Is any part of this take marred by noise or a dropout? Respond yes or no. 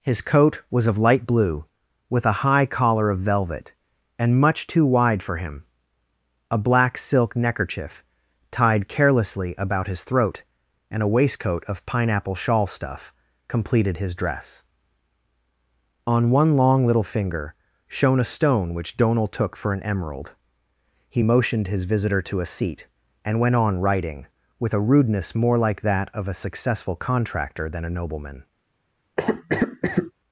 yes